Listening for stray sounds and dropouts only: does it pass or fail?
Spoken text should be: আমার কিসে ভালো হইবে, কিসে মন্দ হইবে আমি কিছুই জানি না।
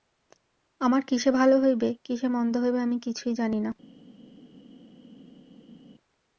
pass